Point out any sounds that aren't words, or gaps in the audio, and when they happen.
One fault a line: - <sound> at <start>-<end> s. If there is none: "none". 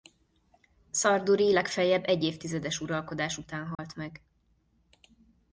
- dropout at 3.7-3.8 s